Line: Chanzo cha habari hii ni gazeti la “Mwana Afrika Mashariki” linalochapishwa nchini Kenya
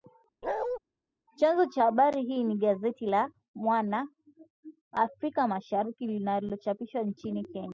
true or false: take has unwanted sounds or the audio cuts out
true